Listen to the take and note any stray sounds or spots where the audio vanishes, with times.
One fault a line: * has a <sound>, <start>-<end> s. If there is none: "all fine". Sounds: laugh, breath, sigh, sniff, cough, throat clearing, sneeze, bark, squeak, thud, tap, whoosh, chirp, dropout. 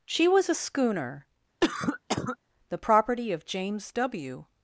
* has a cough, 1.6-2.4 s